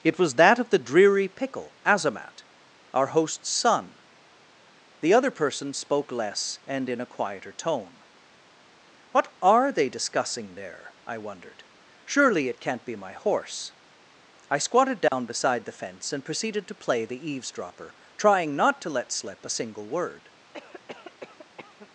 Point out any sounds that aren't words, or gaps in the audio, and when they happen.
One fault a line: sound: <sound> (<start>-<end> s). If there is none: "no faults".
sound: dropout (15.1-15.1 s)
sound: cough (20.5-21.9 s)